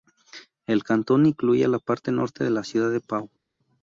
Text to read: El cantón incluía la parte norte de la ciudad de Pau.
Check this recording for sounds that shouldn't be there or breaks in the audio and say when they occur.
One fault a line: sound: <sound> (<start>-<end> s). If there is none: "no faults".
no faults